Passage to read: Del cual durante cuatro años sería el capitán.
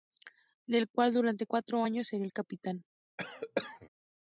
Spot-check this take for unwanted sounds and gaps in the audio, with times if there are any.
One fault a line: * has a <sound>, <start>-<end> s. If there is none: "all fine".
* has a cough, 3.2-3.9 s